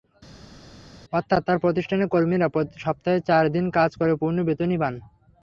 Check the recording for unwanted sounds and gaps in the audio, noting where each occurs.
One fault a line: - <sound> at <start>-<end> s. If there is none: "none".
none